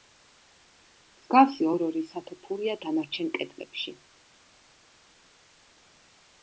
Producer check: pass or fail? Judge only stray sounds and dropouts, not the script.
pass